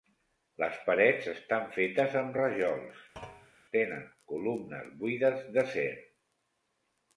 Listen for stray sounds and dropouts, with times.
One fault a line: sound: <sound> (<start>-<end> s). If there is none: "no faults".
sound: thud (3.2-3.5 s)